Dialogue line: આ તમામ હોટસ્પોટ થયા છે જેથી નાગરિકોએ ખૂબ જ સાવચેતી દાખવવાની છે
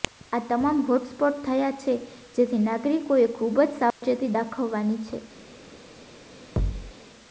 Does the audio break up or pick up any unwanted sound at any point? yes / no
yes